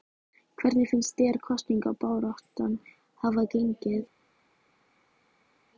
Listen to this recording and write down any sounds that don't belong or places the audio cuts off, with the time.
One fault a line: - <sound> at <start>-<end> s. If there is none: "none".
none